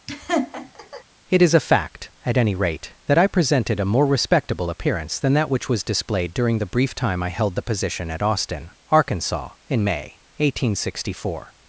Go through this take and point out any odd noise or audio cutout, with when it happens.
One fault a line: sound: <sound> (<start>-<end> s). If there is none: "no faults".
sound: laugh (0.1-1.0 s)